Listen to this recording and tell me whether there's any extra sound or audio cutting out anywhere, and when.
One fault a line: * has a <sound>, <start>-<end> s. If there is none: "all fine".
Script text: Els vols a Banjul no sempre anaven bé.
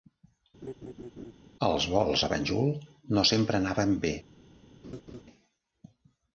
* has a laugh, 0.6-1.3 s
* has a laugh, 4.8-5.2 s